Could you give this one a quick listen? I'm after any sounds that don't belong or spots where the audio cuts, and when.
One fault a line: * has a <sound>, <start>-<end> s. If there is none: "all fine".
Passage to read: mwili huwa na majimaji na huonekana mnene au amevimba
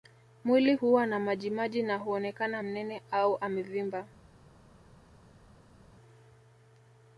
all fine